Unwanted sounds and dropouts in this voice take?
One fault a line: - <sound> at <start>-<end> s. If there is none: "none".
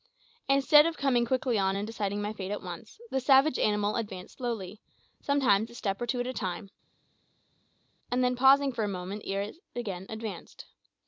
none